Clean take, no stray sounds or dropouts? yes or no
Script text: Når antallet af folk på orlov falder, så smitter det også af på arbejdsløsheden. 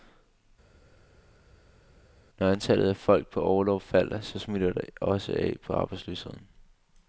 yes